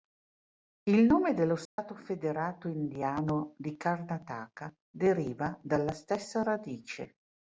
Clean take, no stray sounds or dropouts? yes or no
no